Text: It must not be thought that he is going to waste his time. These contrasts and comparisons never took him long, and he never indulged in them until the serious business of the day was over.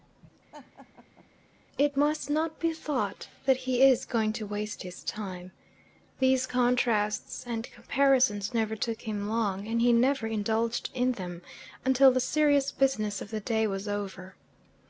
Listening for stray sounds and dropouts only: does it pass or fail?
fail